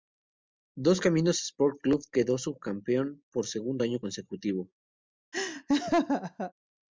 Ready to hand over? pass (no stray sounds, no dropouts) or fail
fail